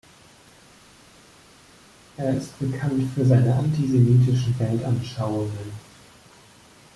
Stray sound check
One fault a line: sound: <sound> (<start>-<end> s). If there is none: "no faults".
no faults